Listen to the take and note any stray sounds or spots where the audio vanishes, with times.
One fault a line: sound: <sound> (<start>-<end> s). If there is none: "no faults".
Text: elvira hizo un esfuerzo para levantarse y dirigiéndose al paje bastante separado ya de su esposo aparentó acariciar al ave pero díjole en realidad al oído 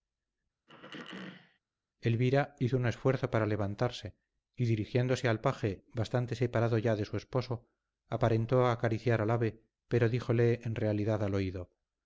sound: throat clearing (0.7-1.6 s)